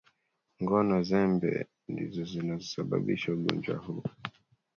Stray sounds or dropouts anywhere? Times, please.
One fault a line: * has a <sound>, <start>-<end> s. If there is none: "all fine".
all fine